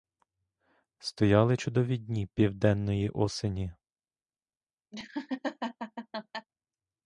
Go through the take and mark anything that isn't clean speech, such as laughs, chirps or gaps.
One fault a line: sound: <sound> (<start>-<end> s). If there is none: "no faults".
sound: laugh (4.9-6.5 s)